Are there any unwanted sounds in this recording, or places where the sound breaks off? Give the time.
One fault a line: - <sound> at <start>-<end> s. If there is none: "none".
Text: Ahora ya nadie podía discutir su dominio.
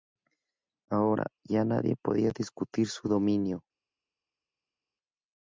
none